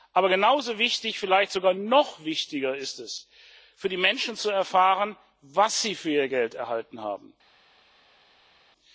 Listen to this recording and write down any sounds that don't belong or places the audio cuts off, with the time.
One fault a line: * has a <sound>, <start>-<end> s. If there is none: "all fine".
all fine